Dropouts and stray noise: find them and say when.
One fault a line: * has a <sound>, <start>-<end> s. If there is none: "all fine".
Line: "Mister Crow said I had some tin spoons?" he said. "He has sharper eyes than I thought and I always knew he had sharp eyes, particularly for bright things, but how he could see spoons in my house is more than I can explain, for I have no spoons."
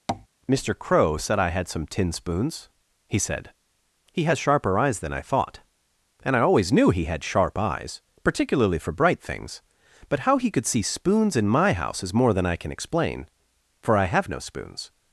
* has a tap, 0.1-0.3 s